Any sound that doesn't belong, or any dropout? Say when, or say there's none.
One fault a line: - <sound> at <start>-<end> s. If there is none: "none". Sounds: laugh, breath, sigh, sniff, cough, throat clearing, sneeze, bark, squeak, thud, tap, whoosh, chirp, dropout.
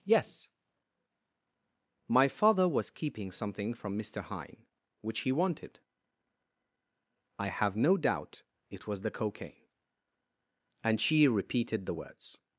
none